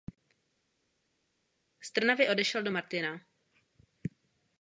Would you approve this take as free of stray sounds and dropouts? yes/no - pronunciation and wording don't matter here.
yes